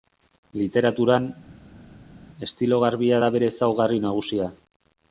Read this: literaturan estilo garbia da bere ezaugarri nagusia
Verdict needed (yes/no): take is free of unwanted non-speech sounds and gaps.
yes